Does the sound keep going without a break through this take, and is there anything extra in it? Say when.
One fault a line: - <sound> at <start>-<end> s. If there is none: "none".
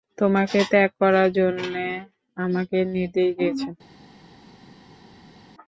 none